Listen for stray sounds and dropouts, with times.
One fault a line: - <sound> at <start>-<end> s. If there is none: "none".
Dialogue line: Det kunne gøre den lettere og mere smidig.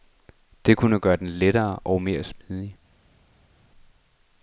none